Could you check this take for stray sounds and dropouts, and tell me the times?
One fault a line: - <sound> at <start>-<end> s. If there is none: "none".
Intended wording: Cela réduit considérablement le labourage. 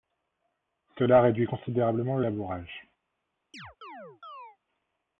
- chirp at 3.5-4.6 s